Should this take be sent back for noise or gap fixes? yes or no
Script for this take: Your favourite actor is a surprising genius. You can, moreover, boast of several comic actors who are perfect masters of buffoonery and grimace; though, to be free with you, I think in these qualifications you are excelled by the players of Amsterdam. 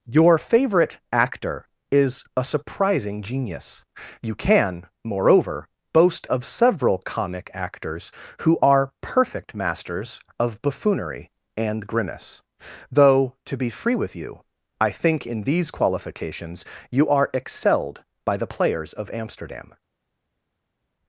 no